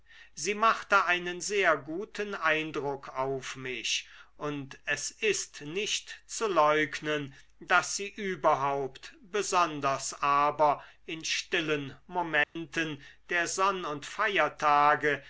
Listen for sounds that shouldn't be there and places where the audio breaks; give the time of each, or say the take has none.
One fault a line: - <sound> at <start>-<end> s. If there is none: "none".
- dropout at 12.4-12.6 s